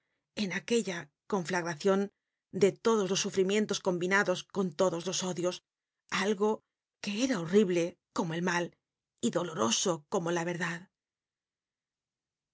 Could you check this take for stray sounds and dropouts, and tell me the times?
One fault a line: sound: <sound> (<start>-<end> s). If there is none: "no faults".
no faults